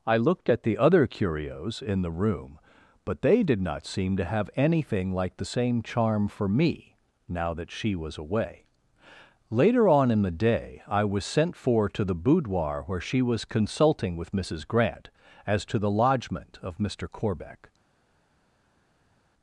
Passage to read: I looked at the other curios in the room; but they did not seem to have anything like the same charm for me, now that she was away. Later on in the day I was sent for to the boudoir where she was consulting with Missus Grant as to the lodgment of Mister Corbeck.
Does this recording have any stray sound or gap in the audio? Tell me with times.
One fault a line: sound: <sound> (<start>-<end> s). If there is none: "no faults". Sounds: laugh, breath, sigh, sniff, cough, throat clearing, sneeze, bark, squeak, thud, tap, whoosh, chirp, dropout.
no faults